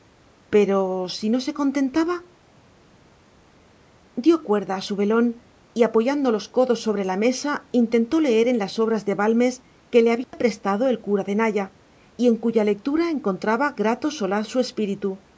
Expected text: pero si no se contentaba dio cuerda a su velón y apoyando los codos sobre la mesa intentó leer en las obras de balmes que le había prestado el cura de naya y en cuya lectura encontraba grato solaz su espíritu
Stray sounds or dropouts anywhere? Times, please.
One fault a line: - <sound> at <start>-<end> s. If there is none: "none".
- dropout at 10.2-10.3 s